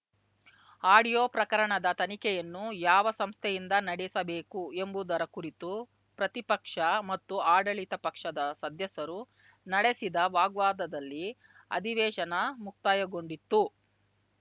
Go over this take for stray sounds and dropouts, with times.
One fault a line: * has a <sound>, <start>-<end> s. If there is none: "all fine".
all fine